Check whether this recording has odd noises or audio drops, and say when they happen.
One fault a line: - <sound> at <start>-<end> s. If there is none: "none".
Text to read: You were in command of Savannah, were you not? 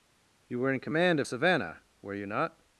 none